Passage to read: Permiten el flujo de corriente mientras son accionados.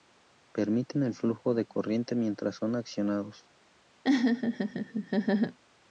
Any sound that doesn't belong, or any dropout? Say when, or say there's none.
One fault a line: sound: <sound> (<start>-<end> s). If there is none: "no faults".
sound: laugh (4.0-5.6 s)